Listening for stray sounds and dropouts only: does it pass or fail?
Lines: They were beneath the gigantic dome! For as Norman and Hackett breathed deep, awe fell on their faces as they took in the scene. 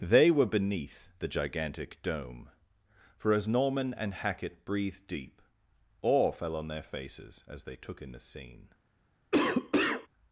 fail